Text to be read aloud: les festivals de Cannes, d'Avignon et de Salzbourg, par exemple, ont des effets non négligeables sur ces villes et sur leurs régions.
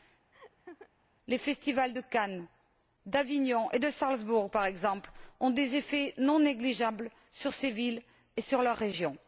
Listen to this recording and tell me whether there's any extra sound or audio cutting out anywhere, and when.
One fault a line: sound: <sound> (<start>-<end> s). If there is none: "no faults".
sound: laugh (0.3-0.9 s)